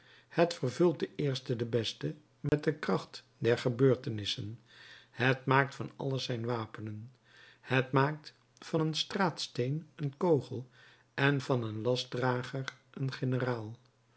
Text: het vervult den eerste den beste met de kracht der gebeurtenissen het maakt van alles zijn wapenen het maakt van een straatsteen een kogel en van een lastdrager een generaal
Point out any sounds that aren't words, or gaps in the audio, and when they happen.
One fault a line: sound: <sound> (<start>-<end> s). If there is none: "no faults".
sound: dropout (2.5-2.5 s)